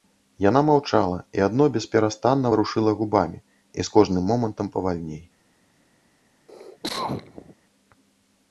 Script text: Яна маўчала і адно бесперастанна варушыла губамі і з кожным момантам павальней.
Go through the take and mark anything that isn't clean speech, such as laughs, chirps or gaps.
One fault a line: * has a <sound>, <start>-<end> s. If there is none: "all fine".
* has a cough, 6.5-7.5 s